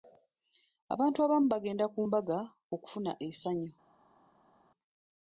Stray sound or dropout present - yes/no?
no